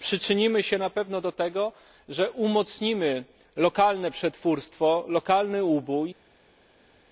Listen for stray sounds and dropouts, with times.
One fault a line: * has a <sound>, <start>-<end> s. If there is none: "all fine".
all fine